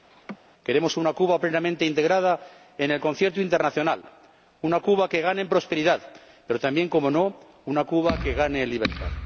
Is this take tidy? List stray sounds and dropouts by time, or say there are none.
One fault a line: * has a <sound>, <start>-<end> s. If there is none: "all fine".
* has a laugh, 0.1-0.4 s